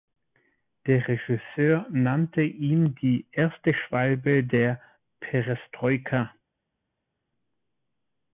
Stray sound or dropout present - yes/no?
no